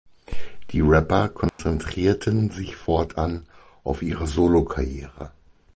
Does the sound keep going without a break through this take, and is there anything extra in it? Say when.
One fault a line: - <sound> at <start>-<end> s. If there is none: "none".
- dropout at 1.5-1.6 s